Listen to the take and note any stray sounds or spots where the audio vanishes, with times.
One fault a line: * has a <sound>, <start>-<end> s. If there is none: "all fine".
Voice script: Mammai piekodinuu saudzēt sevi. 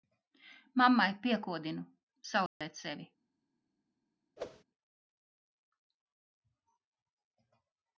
* has a dropout, 2.5-2.6 s
* has a whoosh, 4.4-4.6 s